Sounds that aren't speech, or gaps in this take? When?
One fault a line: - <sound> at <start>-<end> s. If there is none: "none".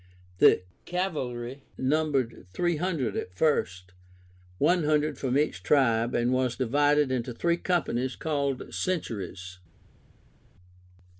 none